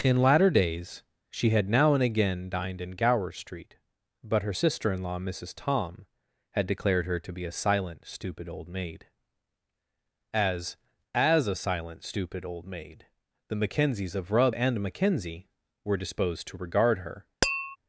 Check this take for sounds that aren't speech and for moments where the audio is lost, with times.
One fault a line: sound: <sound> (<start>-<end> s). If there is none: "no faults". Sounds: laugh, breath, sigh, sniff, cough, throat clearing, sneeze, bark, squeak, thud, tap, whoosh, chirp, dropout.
sound: tap (17.4-17.8 s)